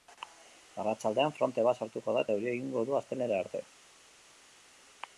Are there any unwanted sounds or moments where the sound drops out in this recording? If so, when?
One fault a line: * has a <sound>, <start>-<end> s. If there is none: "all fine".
all fine